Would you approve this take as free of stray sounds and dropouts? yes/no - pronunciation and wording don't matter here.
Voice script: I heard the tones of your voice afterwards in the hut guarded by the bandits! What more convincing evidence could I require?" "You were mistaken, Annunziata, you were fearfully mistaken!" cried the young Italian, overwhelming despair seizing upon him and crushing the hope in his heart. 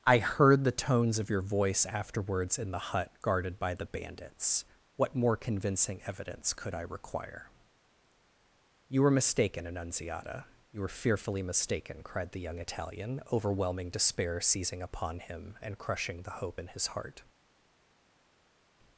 yes